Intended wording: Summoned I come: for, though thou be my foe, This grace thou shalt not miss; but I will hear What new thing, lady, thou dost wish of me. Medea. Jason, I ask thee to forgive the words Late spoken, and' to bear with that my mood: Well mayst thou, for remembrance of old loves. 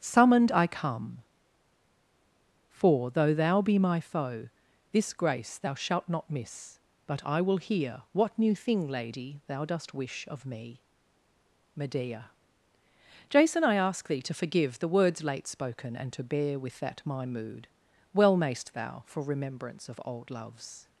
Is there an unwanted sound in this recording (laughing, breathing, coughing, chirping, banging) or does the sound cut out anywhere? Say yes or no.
no